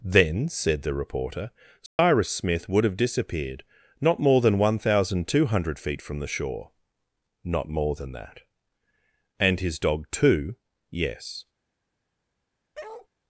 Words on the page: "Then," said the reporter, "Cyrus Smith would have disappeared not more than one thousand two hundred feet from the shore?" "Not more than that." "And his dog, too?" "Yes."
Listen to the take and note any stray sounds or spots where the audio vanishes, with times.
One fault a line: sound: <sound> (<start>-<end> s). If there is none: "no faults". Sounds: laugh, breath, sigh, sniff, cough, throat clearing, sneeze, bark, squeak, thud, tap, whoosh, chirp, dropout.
sound: dropout (1.9-2.0 s)
sound: bark (12.7-13.1 s)